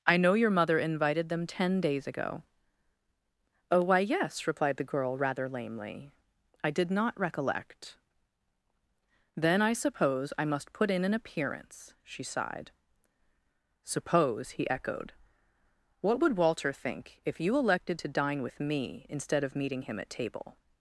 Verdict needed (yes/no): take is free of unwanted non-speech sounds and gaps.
yes